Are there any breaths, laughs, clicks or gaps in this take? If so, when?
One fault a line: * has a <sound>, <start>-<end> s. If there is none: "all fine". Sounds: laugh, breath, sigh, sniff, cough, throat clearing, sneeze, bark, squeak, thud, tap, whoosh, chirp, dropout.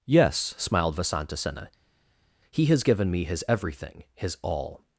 all fine